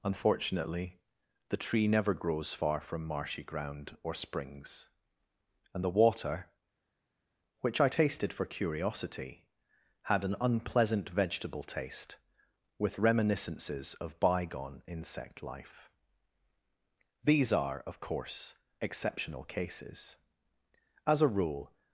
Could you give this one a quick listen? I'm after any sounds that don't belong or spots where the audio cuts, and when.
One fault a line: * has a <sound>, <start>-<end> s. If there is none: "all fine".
all fine